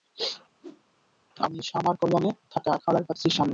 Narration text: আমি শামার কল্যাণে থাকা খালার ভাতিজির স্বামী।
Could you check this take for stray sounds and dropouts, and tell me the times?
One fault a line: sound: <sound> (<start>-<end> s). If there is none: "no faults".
sound: whoosh (0.6-0.8 s)